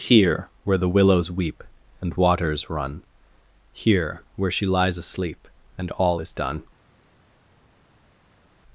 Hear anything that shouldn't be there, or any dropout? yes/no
no